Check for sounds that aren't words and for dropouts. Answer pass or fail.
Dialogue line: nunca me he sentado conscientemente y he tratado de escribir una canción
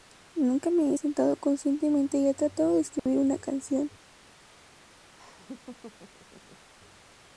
fail